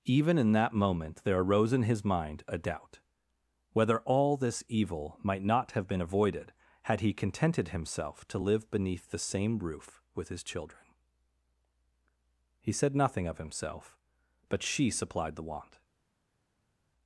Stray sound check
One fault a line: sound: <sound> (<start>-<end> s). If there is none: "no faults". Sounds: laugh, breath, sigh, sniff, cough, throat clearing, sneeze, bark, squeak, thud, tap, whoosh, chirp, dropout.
no faults